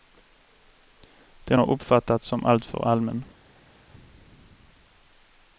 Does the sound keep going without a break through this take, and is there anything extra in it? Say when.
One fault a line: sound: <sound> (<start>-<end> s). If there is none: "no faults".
no faults